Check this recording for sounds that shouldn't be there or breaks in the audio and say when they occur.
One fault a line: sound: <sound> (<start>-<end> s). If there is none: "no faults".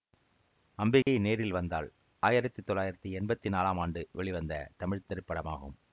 sound: dropout (1.0-1.1 s)